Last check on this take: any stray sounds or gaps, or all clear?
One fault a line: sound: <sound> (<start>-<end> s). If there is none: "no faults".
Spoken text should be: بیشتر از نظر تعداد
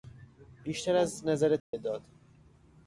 sound: dropout (1.6-1.7 s)